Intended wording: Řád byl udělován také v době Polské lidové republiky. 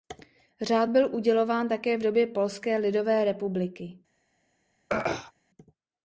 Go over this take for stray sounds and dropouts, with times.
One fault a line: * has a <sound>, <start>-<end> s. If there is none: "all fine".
* has a throat clearing, 4.9-5.3 s